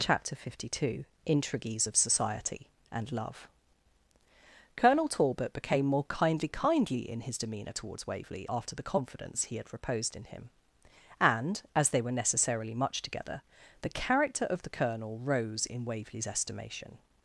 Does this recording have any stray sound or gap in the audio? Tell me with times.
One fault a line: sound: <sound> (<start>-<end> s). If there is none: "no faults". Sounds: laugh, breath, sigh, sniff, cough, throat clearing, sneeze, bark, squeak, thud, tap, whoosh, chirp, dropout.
no faults